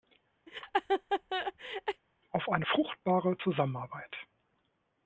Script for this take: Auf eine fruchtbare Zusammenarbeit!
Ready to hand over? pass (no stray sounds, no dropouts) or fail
fail